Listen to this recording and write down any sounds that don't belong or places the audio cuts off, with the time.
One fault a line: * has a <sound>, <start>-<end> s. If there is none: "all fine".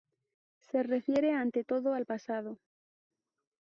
all fine